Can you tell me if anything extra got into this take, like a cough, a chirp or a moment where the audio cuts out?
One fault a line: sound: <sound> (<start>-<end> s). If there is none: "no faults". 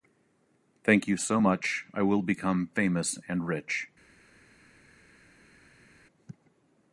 no faults